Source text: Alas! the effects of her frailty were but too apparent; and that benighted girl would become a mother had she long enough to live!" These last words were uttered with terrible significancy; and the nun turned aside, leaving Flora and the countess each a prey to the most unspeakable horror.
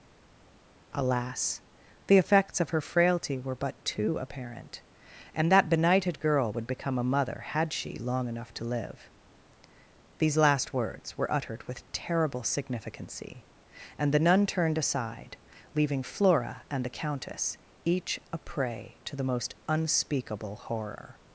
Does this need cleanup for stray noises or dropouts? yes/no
no